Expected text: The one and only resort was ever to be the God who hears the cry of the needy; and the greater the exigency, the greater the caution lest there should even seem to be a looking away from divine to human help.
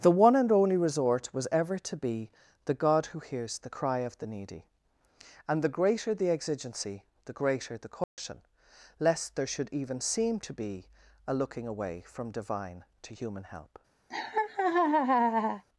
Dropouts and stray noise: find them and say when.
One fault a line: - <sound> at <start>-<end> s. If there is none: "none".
- dropout at 8.0-8.2 s
- laugh at 14.1-15.6 s